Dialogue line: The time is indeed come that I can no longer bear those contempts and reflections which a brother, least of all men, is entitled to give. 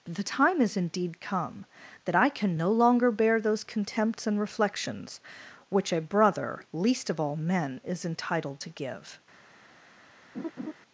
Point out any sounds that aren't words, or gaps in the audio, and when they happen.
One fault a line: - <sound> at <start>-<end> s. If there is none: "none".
- laugh at 10.3-10.7 s